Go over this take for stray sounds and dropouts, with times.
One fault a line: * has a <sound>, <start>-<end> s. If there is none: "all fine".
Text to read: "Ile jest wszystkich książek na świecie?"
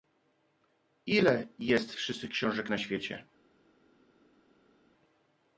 all fine